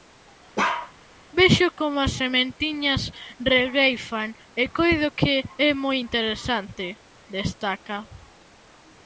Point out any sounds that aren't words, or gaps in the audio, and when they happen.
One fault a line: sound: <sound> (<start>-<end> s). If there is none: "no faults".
sound: bark (0.6-0.9 s)